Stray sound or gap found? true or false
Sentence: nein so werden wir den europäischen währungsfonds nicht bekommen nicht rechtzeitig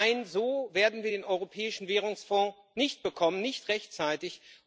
false